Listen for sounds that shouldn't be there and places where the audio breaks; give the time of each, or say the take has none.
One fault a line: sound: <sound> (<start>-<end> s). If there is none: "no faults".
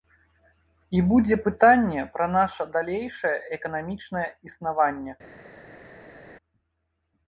no faults